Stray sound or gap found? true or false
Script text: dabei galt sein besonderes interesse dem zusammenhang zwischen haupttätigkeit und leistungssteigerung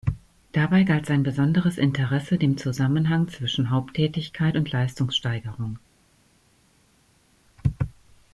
false